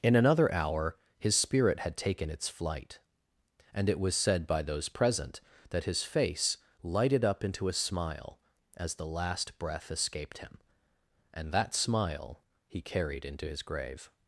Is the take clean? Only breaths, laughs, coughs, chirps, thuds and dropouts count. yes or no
yes